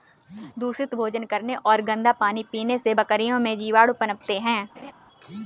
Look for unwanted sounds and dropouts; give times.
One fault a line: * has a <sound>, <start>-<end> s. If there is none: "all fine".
* has a laugh, 4.8-4.9 s